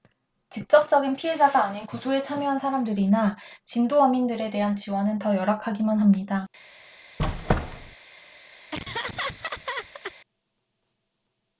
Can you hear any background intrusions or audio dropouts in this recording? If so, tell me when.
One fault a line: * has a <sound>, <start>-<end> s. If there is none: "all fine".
* has a squeak, 7.2-8.0 s
* has a laugh, 8.7-10.1 s